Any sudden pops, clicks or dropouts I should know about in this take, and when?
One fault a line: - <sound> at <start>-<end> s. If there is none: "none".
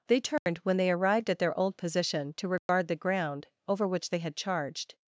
- dropout at 0.4-0.5 s
- dropout at 2.6-2.7 s